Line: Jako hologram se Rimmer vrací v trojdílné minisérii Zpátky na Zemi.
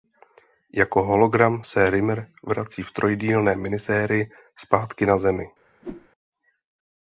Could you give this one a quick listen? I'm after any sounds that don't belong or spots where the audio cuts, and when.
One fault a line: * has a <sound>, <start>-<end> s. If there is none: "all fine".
* has a whoosh, 5.8-6.1 s